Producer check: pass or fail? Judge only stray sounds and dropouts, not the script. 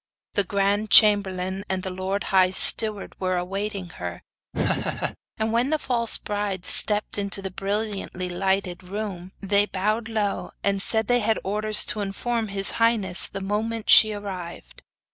fail